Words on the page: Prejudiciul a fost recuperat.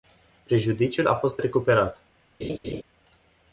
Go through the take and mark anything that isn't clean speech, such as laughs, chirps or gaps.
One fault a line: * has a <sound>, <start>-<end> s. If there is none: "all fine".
* has a laugh, 2.4-2.8 s